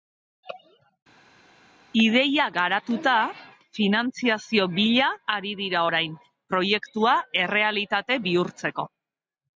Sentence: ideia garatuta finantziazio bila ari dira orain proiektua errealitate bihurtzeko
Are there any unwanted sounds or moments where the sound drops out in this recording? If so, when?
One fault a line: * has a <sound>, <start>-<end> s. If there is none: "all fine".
all fine